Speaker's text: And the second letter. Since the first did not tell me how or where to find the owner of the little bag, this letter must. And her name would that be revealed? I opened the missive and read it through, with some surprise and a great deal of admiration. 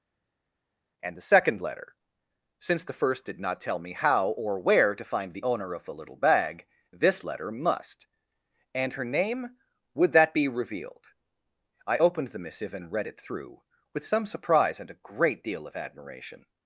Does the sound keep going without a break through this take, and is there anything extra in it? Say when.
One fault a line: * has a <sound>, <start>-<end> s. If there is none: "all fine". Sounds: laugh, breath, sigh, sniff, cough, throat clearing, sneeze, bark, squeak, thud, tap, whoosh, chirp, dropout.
all fine